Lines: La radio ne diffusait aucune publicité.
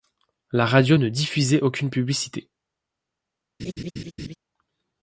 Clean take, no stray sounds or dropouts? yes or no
no